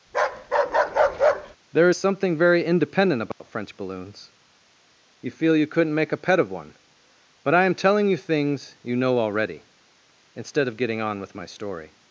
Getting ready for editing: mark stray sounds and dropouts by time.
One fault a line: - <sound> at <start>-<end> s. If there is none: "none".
- bark at 0.1-1.6 s
- dropout at 3.3-3.4 s